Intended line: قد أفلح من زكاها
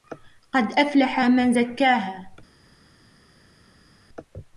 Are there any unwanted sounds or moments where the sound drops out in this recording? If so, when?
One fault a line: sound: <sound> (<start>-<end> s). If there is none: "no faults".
no faults